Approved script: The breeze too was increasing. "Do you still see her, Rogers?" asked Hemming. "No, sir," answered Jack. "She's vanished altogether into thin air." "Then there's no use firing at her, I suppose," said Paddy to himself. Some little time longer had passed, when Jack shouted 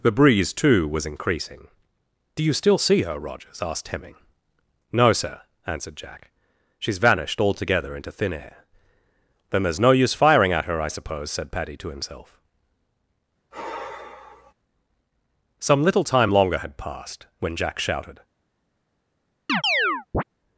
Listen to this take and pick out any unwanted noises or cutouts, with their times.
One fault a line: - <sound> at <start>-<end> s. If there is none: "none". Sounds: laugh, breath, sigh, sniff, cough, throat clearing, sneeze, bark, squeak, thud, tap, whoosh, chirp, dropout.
- sigh at 13.5-14.5 s
- chirp at 19.5-20.2 s